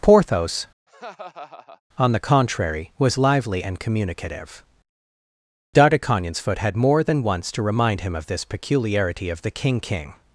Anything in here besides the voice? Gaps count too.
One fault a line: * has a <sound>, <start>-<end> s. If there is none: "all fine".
* has a laugh, 0.9-1.8 s